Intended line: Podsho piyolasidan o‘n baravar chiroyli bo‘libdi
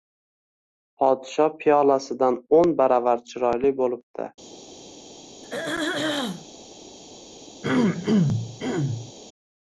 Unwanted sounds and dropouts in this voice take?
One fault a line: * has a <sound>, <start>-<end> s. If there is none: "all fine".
* has a throat clearing, 5.4-6.5 s
* has a throat clearing, 7.6-9.1 s